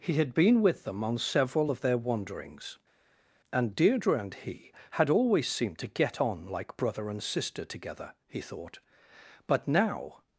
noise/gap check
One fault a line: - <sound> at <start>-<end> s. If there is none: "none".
none